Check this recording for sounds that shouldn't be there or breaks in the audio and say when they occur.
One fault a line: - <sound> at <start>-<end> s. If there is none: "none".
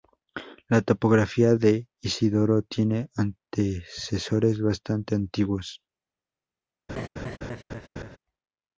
- laugh at 6.9-8.2 s